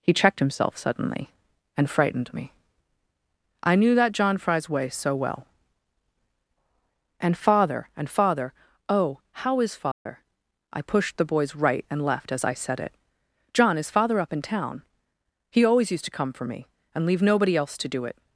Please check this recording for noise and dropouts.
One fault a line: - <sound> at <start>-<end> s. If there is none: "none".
- dropout at 9.9-10.1 s